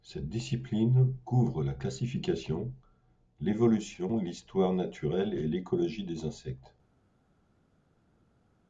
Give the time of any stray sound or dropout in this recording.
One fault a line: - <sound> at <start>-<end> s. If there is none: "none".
none